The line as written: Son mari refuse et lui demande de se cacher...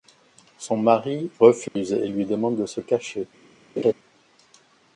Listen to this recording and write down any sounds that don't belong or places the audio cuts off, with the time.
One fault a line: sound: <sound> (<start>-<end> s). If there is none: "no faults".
sound: dropout (1.7-1.8 s)
sound: laugh (3.8-3.9 s)